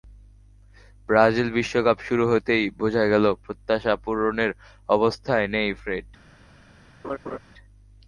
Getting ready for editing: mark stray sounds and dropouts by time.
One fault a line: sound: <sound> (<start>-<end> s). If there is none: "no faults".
sound: laugh (7.0-7.4 s)